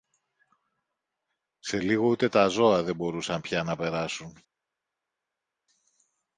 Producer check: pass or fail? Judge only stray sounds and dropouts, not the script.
pass